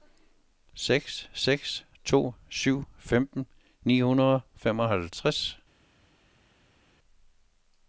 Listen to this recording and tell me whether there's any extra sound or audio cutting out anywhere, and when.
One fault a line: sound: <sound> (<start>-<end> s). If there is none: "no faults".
no faults